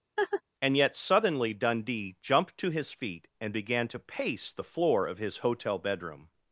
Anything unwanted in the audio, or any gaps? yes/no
yes